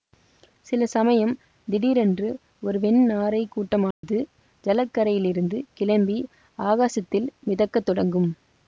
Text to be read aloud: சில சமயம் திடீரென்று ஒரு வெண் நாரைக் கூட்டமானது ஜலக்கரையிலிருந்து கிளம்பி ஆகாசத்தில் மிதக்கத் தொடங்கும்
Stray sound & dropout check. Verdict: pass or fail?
fail